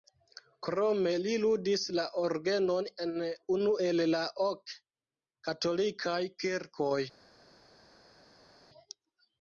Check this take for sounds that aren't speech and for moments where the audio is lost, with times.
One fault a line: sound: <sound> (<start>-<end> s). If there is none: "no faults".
no faults